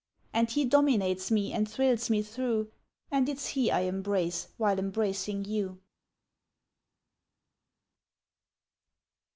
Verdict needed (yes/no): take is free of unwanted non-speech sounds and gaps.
yes